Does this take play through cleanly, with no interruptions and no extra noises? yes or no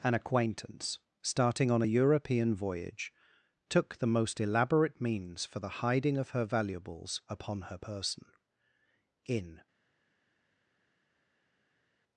yes